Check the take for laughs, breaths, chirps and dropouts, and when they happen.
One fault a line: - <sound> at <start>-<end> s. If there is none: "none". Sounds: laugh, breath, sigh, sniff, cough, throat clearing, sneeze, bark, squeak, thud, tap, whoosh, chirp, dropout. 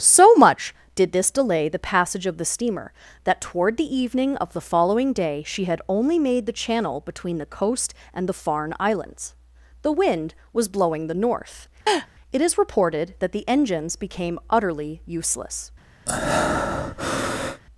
- laugh at 11.9-12.1 s
- breath at 16.1-17.6 s